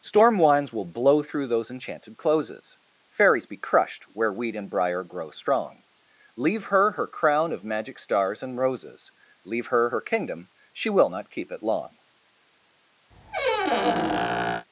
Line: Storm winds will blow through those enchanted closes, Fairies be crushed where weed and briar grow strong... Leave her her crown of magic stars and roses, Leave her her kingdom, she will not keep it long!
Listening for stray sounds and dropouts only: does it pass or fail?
fail